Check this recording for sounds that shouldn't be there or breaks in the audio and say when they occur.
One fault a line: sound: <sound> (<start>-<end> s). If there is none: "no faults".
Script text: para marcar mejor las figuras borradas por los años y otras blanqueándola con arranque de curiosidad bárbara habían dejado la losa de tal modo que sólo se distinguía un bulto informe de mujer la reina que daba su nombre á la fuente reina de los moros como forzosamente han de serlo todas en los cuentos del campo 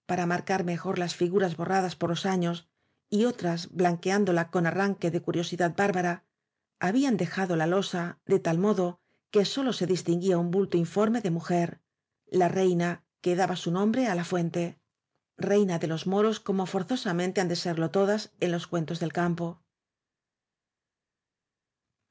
no faults